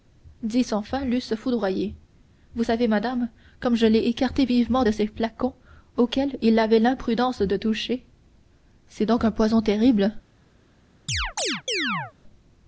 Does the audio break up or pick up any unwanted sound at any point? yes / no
yes